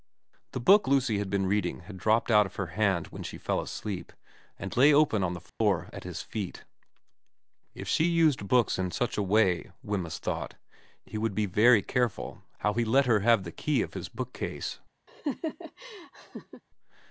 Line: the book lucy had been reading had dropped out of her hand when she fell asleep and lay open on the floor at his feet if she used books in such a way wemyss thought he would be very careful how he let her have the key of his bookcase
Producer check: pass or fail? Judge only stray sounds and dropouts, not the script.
fail